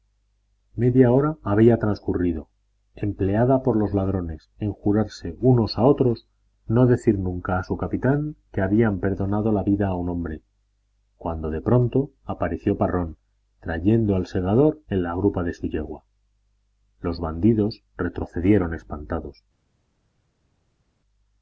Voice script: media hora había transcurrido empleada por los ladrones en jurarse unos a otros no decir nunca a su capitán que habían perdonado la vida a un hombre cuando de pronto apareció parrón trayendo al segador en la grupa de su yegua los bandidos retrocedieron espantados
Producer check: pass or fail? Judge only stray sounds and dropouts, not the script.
pass